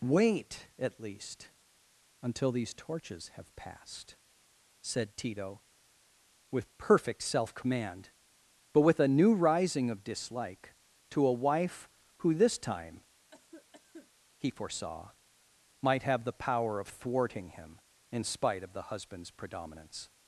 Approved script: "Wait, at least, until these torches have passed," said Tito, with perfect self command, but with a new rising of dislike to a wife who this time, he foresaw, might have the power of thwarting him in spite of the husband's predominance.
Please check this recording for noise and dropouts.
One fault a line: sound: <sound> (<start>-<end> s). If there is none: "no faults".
sound: cough (13.3-14.1 s)